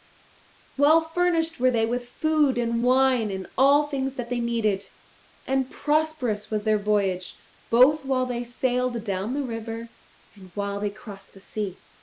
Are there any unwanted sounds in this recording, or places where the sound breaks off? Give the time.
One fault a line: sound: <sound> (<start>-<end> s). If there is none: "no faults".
no faults